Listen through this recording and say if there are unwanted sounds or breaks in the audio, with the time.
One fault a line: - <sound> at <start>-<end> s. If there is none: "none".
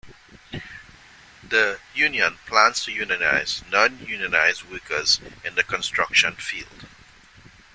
none